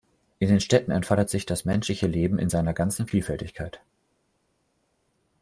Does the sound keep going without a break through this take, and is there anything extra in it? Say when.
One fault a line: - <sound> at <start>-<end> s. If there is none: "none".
none